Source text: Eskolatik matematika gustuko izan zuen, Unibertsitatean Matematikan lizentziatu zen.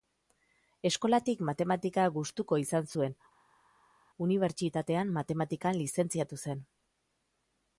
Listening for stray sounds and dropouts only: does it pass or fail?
pass